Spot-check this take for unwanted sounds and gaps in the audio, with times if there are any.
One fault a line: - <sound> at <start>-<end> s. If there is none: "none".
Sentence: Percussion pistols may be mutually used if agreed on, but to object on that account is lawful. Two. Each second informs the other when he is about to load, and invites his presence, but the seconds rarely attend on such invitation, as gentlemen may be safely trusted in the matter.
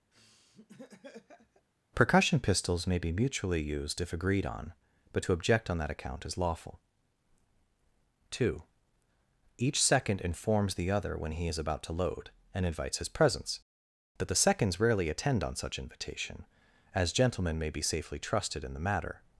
- laugh at 0.1-1.7 s